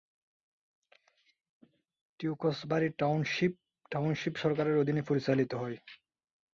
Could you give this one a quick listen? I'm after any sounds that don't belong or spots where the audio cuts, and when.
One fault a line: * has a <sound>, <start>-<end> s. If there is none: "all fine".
all fine